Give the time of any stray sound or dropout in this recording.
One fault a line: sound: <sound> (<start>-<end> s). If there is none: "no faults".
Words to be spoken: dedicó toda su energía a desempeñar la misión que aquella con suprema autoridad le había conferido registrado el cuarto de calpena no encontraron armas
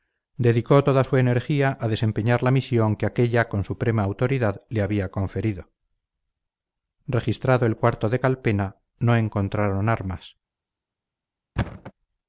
sound: thud (11.6-11.9 s)